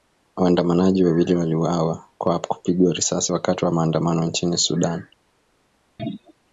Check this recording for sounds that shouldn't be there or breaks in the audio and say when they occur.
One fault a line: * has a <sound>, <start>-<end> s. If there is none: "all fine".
* has a throat clearing, 6.0-6.3 s